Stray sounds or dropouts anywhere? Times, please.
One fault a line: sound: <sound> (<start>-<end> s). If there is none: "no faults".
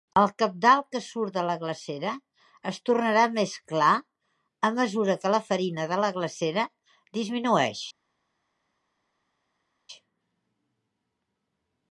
no faults